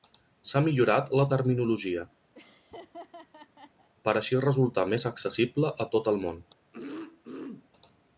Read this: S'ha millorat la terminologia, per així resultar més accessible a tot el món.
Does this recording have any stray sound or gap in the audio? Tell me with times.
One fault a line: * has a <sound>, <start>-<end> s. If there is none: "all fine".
* has a laugh, 2.3-3.9 s
* has a throat clearing, 6.7-7.7 s